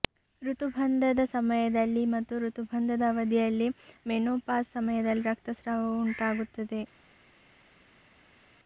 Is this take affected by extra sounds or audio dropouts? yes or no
no